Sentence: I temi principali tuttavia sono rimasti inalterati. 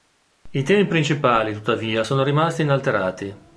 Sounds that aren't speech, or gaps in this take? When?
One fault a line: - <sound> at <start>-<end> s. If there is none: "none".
none